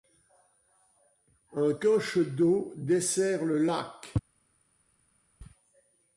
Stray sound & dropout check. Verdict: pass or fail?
pass